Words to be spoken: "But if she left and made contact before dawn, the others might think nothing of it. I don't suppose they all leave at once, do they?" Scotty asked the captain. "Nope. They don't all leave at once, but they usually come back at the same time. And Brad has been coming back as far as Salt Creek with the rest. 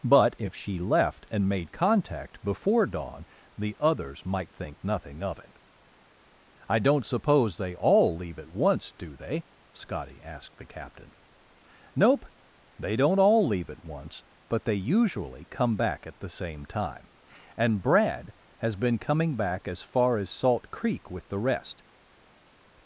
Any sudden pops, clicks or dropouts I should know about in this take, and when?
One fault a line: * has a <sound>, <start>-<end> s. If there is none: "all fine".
all fine